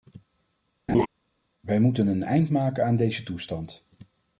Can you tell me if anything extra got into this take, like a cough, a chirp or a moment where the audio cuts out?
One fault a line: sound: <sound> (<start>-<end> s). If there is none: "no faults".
sound: laugh (0.9-1.1 s)